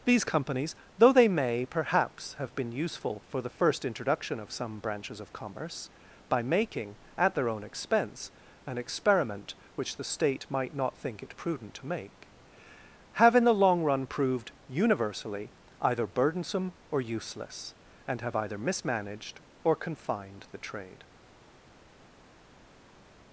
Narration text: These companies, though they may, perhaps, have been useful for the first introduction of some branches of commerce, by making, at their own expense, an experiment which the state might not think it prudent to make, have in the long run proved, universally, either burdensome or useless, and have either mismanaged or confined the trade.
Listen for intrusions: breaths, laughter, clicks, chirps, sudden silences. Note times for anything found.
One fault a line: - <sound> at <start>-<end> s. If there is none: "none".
none